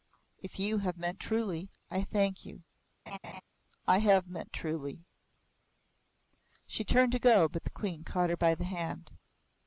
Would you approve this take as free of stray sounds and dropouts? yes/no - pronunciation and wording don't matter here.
no